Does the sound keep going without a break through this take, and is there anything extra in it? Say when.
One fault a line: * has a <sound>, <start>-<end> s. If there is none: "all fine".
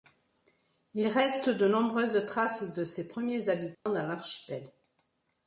* has a dropout, 3.7-3.9 s